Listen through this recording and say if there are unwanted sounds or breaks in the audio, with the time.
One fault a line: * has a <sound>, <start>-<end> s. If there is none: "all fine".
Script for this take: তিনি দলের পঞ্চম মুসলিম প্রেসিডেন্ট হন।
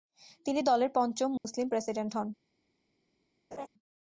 * has a dropout, 1.4-1.4 s
* has a laugh, 3.5-3.7 s